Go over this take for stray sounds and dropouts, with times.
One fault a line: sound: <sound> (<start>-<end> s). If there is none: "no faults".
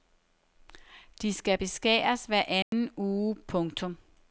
sound: dropout (2.6-2.7 s)